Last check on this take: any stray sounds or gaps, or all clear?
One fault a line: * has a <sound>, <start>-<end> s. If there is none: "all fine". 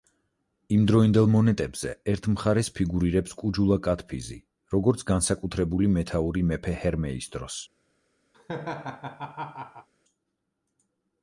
* has a laugh, 8.3-9.9 s